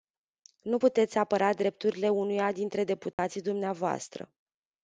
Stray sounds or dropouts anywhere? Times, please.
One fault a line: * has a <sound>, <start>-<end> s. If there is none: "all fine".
* has a dropout, 3.1-3.2 s